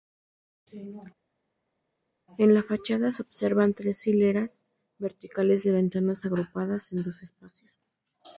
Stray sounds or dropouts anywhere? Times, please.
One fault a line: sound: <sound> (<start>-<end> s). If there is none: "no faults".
no faults